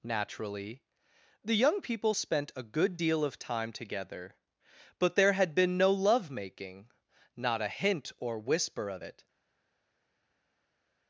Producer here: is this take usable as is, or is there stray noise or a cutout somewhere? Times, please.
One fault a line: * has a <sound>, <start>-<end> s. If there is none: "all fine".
all fine